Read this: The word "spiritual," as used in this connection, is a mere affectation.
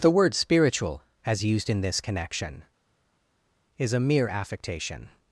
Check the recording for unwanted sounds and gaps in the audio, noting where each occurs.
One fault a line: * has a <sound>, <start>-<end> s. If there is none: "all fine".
all fine